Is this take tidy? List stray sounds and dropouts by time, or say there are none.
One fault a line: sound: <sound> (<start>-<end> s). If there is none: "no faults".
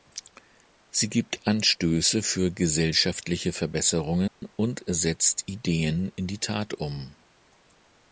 sound: dropout (4.3-4.4 s)